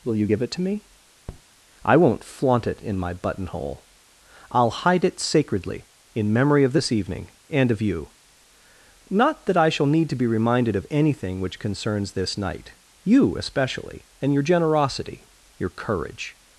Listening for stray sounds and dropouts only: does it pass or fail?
fail